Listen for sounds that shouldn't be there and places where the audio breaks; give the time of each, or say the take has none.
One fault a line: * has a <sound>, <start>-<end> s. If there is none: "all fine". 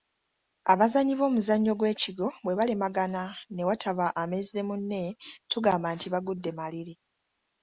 all fine